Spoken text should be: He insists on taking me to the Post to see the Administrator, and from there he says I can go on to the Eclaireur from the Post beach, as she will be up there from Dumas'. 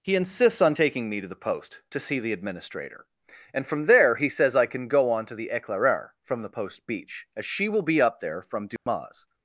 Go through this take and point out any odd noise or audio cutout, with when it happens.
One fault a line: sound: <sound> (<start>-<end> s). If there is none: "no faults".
sound: dropout (8.8-8.9 s)